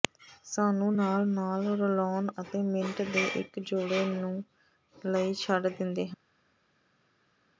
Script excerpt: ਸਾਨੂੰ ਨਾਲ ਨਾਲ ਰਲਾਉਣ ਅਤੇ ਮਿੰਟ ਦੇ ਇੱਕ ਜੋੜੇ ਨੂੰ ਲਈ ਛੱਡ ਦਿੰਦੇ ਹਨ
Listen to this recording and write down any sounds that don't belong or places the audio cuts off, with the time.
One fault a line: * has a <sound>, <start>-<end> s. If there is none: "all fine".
all fine